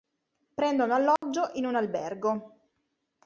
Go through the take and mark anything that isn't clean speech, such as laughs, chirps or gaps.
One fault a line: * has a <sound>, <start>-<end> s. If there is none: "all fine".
* has a dropout, 1.2-1.2 s